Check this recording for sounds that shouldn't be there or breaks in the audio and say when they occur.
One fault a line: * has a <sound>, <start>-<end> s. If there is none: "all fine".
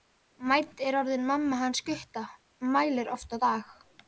all fine